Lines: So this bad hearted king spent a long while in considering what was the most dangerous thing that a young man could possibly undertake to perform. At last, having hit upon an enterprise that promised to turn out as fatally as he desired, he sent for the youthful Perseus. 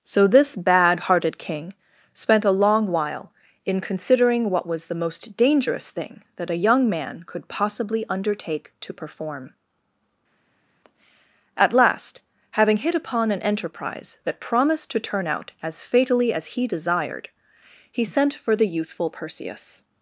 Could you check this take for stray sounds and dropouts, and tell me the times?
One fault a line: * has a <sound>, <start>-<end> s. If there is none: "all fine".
all fine